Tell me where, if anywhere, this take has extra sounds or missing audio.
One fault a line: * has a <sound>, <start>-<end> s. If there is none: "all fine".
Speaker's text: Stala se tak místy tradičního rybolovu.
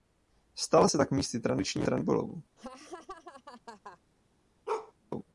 * has a laugh, 2.6-4.0 s
* has a bark, 4.7-4.9 s